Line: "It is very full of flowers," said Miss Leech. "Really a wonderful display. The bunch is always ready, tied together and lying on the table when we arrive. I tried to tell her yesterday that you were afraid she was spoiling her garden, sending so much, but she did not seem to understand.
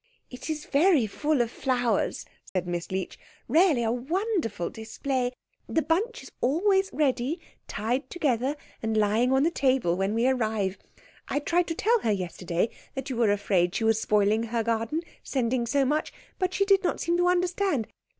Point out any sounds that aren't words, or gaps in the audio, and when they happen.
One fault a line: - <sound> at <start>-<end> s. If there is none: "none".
- dropout at 2.5-2.6 s